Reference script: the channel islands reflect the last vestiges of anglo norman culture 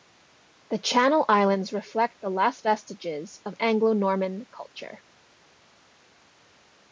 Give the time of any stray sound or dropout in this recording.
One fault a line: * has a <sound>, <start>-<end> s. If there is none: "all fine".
all fine